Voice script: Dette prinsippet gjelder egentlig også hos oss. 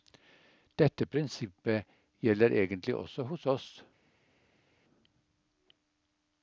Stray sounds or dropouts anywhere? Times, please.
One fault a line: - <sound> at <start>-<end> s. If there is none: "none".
none